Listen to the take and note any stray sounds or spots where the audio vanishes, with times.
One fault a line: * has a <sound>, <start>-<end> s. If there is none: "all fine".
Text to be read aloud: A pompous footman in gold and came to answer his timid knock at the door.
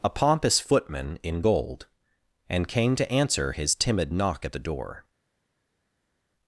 all fine